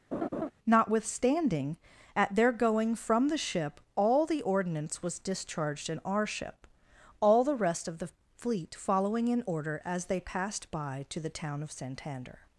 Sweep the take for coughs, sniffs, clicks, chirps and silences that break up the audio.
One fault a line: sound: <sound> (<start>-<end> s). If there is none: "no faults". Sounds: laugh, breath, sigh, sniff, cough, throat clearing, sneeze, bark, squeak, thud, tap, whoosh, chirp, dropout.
sound: laugh (0.1-0.5 s)